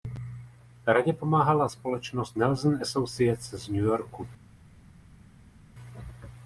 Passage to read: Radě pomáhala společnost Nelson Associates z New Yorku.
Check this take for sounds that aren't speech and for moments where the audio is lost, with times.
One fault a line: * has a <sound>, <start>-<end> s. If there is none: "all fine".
all fine